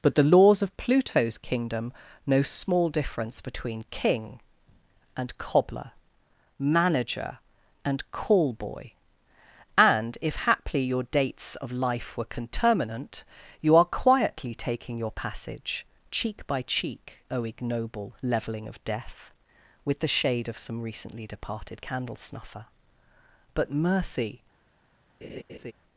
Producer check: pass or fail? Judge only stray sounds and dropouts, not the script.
fail